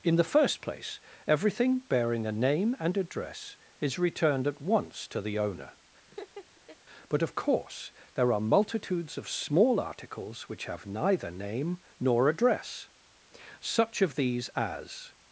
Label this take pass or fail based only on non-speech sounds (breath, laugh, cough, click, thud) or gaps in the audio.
fail